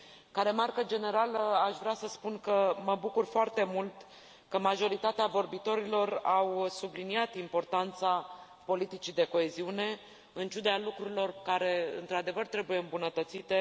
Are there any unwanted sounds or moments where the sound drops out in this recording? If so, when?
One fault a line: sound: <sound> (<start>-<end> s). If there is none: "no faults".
no faults